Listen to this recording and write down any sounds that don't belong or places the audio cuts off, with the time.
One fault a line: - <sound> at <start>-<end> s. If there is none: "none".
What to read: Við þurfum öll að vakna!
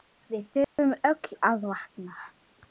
- dropout at 0.6-0.8 s